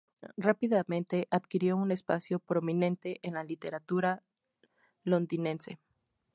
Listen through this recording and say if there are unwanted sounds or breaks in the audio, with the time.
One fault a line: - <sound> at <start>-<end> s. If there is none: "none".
none